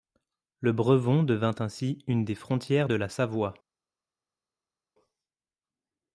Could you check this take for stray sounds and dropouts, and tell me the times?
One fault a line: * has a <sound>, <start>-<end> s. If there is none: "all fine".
all fine